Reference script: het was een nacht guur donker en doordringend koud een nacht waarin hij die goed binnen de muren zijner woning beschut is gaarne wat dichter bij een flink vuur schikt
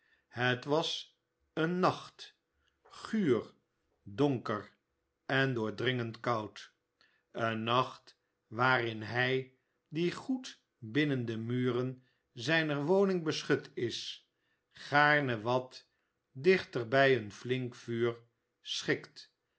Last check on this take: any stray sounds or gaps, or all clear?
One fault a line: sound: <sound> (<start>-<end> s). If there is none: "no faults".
no faults